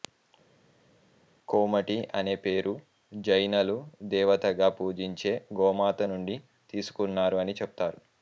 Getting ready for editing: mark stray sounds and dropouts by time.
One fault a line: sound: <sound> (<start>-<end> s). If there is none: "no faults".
no faults